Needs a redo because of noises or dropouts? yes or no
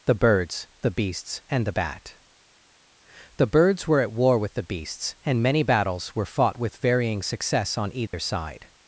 yes